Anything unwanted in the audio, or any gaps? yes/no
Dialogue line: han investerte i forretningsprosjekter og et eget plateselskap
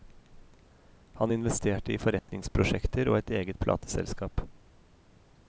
yes